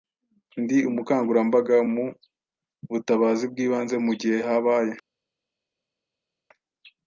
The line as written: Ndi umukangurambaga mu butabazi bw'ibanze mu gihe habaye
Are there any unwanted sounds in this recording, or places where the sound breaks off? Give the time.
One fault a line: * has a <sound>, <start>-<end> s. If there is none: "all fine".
all fine